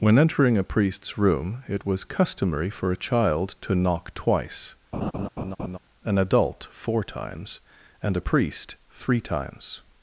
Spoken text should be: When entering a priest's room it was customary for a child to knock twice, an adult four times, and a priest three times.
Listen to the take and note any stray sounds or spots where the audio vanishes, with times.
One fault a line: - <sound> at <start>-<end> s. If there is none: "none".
- laugh at 4.9-5.8 s